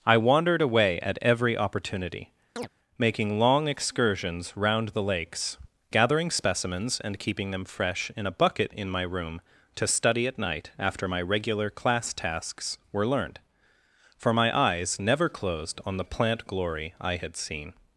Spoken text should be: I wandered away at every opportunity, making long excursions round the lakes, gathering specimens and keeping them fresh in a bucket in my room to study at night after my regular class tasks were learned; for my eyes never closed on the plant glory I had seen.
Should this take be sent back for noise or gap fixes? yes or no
yes